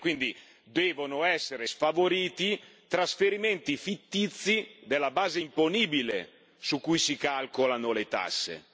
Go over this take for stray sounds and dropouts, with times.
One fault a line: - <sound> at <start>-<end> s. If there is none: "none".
none